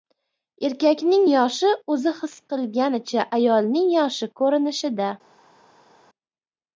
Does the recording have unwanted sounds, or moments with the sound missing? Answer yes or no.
no